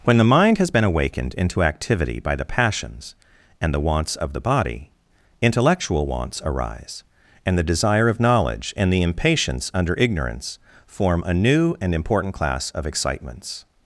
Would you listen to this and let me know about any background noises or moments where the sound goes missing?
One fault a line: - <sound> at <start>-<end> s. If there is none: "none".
none